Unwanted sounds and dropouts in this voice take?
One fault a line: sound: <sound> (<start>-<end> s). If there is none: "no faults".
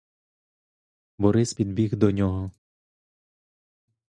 no faults